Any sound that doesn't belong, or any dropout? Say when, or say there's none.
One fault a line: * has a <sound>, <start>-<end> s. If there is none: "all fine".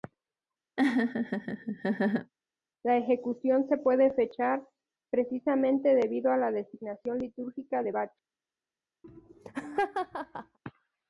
* has a laugh, 0.8-2.3 s
* has a laugh, 9.0-10.6 s